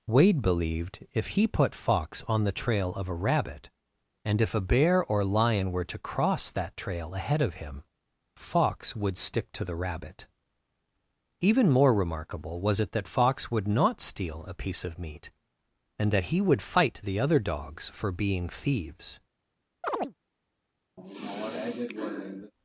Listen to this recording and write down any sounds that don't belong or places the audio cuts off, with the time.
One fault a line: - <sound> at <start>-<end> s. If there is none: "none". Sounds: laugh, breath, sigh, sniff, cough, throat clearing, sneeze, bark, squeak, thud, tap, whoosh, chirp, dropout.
- chirp at 19.8-20.1 s
- sigh at 21.0-22.5 s